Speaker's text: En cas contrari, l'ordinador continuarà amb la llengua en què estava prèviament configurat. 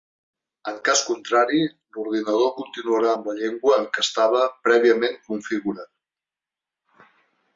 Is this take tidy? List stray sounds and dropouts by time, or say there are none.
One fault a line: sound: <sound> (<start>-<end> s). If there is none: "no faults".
no faults